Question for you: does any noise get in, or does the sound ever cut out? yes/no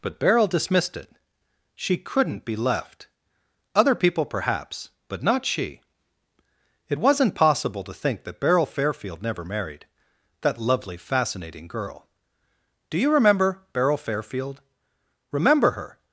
no